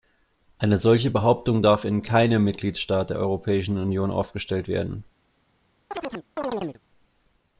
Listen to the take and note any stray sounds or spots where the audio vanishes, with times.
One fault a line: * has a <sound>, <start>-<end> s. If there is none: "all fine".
* has a chirp, 5.9-6.8 s